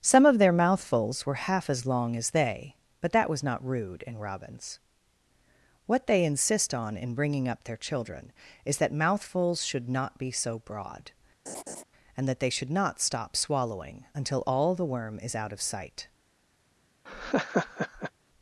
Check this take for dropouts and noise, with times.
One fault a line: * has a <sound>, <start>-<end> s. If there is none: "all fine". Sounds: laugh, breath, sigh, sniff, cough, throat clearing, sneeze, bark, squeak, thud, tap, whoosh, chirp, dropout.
* has a laugh, 11.5-11.8 s
* has a laugh, 17.1-18.1 s